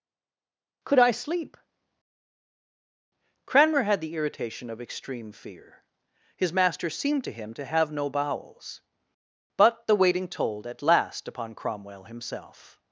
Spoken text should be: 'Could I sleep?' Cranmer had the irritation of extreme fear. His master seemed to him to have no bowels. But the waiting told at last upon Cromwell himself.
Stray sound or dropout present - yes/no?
no